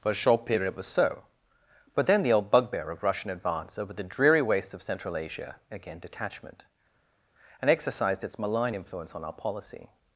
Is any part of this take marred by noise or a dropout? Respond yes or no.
no